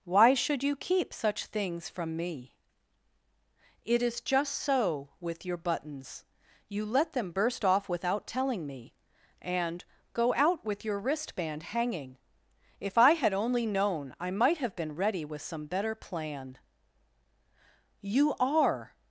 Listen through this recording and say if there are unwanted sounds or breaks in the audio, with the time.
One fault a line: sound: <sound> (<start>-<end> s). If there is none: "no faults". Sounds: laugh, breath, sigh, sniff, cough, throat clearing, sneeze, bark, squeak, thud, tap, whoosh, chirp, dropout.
no faults